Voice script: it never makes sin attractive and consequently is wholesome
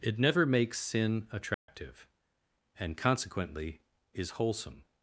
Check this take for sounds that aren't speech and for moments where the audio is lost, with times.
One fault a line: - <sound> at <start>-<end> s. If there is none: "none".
- dropout at 1.5-1.7 s